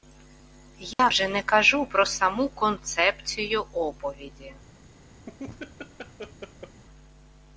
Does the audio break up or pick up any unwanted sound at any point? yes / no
yes